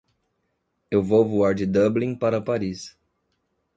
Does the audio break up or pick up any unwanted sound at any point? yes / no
no